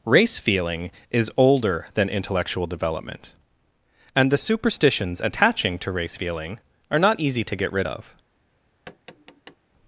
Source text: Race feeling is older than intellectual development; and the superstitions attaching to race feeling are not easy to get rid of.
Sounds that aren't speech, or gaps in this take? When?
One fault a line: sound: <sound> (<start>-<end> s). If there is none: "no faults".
sound: tap (8.9-9.6 s)